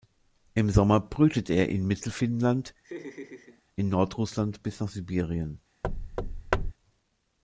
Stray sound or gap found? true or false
true